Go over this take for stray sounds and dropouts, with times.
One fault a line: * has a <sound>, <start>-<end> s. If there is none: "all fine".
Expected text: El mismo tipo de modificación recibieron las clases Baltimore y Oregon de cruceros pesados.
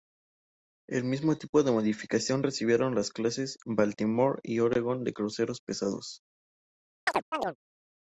* has a chirp, 7.1-7.6 s